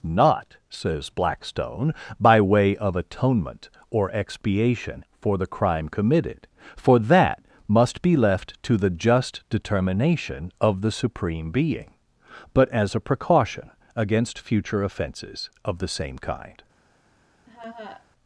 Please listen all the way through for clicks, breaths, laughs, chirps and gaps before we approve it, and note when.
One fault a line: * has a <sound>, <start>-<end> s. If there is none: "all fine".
* has a laugh, 17.5-18.1 s